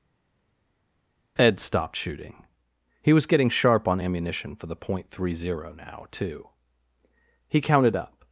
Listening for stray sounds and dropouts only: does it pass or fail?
pass